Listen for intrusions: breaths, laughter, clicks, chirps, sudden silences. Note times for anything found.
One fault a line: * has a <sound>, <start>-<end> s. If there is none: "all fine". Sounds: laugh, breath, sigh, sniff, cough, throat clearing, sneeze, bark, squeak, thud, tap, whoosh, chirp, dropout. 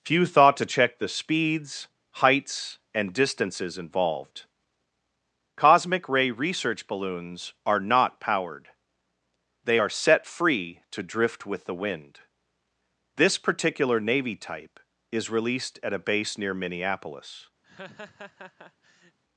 * has a laugh, 17.6-19.2 s